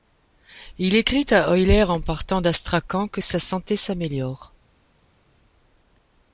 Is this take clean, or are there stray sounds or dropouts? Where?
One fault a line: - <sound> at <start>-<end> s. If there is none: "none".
none